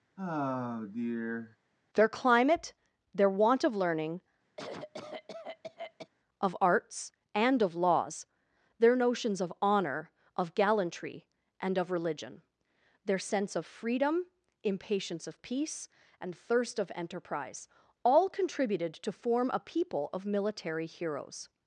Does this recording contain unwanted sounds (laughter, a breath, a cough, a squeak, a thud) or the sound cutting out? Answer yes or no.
yes